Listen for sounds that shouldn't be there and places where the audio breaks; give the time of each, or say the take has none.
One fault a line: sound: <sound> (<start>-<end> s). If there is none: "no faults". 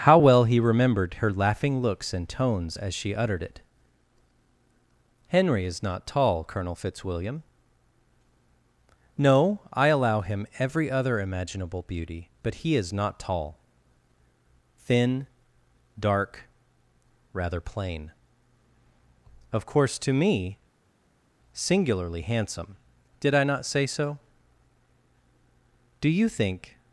no faults